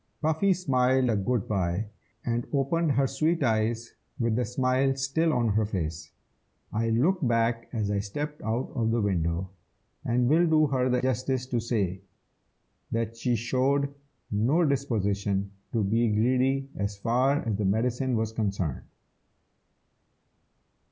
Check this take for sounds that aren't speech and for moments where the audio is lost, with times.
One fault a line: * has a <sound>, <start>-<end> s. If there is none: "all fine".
all fine